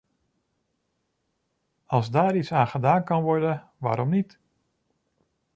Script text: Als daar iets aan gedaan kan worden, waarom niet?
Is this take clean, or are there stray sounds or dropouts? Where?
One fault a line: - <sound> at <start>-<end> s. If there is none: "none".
none